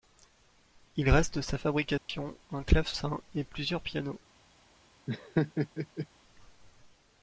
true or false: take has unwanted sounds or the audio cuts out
true